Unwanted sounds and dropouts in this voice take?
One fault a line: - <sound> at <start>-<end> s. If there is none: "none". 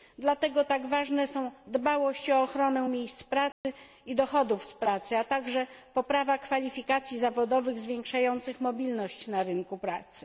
- dropout at 3.5-3.6 s